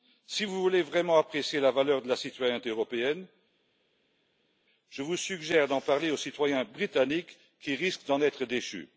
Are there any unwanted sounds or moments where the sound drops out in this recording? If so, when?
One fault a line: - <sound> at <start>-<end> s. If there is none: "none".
none